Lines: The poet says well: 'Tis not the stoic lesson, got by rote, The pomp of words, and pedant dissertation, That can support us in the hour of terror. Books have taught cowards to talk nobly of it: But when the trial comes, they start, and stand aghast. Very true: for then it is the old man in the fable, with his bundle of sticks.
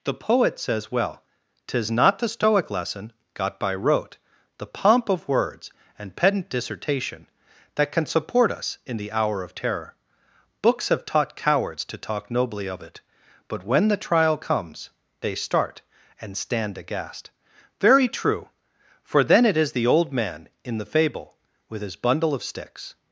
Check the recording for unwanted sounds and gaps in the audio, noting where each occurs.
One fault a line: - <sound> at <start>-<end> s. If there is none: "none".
none